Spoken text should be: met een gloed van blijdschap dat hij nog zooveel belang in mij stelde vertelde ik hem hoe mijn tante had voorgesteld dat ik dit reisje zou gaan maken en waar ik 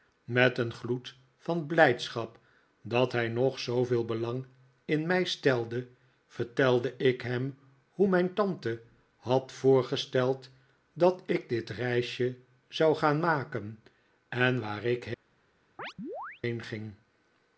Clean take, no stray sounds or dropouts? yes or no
no